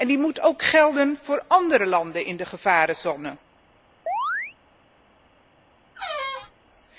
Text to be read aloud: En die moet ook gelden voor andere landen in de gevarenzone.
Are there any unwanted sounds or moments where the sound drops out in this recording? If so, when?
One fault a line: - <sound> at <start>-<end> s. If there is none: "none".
- chirp at 4.1-4.6 s
- squeak at 6.0-6.5 s